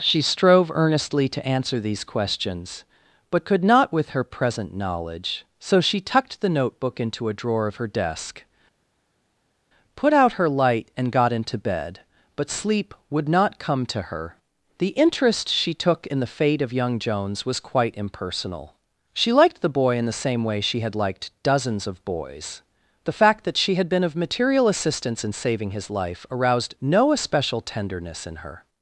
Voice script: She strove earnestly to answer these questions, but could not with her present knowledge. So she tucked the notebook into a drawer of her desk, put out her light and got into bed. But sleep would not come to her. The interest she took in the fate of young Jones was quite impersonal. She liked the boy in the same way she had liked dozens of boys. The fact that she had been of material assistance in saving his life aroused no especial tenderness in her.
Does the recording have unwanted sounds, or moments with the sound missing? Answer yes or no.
no